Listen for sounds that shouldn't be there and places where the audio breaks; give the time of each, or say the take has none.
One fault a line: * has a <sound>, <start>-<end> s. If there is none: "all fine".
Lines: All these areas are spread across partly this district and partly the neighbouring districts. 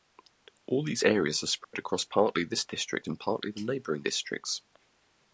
* has a dropout, 1.6-1.7 s